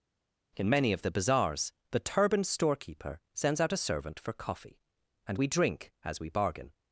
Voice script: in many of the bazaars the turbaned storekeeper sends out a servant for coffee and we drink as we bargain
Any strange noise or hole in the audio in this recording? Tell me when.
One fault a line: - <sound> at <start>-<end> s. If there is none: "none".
none